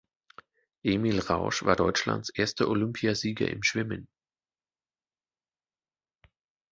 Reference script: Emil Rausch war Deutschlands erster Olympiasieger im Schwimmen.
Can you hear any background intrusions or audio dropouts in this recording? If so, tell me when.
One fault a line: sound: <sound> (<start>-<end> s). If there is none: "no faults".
no faults